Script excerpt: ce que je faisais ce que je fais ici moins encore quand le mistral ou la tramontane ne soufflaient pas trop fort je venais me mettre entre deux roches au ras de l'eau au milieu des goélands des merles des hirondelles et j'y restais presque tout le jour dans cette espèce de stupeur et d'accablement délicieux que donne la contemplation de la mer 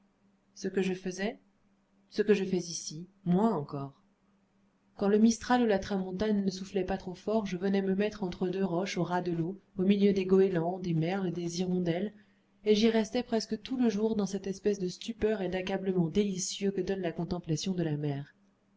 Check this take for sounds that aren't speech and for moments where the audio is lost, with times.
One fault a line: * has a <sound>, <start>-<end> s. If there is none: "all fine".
all fine